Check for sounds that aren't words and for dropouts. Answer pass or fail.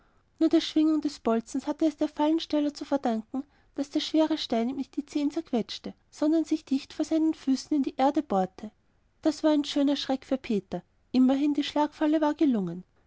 pass